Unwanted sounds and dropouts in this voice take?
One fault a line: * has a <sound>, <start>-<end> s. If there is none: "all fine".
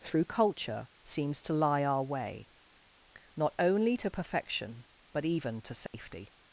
* has a dropout, 5.9-5.9 s